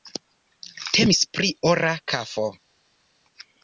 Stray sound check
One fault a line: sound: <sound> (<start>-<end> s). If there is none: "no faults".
no faults